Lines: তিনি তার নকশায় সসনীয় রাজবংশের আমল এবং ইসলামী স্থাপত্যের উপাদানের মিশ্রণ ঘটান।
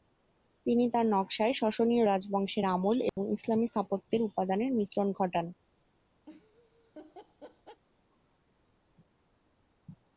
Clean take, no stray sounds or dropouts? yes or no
no